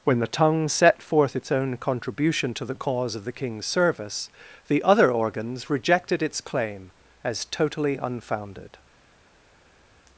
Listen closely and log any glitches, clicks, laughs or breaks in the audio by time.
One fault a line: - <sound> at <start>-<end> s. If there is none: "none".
none